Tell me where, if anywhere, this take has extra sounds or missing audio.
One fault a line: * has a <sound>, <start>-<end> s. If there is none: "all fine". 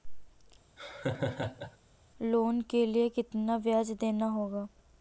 * has a laugh, 0.8-1.8 s